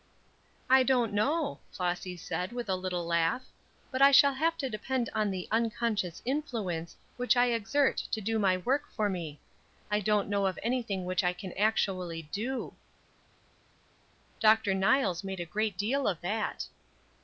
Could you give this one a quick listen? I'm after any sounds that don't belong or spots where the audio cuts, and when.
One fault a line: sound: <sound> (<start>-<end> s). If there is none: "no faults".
no faults